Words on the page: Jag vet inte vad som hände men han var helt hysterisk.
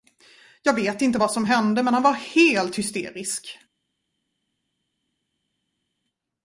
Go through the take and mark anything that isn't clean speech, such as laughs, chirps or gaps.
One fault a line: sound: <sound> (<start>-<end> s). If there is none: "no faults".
no faults